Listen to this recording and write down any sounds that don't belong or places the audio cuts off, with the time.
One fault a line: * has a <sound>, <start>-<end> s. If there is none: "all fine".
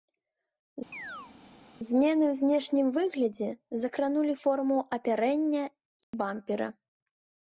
* has a chirp, 0.9-1.3 s
* has a dropout, 6.0-6.1 s